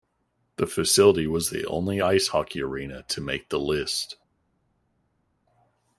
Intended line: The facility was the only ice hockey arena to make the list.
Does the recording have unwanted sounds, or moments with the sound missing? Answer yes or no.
no